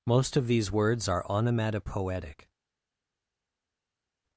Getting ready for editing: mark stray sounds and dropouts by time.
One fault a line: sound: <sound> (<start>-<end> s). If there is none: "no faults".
no faults